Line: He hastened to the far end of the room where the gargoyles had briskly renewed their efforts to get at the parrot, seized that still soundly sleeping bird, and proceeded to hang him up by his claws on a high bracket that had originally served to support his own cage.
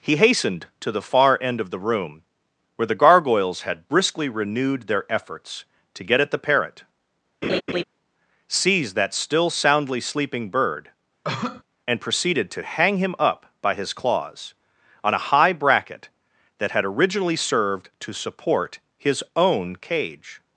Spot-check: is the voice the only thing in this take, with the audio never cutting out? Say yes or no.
no